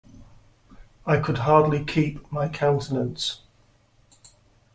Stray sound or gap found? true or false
false